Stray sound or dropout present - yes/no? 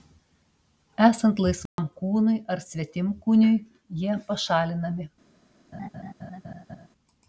yes